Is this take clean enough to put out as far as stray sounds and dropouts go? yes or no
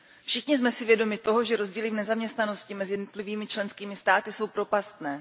yes